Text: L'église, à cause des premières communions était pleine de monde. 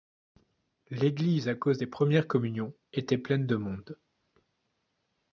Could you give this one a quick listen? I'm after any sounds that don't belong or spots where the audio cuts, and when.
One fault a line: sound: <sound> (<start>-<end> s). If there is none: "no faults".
no faults